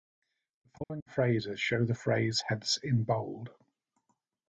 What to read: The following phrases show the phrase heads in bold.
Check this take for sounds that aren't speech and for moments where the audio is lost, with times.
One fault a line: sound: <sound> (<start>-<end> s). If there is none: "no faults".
sound: dropout (0.8-0.9 s)